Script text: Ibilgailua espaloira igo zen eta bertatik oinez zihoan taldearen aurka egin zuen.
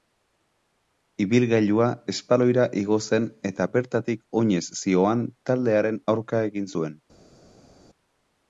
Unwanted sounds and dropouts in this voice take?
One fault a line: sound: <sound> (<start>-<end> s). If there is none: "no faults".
no faults